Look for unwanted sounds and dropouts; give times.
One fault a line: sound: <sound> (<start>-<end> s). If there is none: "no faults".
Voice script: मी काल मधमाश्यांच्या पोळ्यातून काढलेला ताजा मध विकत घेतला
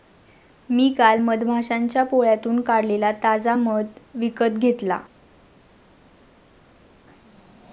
no faults